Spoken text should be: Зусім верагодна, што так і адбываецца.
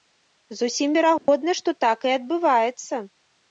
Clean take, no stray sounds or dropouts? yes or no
no